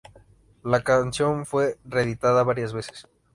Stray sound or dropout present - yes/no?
no